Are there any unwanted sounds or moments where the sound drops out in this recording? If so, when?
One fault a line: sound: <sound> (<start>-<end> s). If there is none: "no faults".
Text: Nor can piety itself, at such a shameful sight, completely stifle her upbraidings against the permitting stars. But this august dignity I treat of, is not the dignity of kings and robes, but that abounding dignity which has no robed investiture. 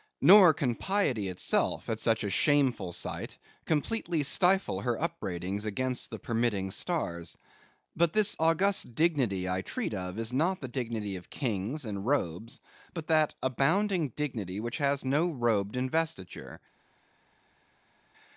no faults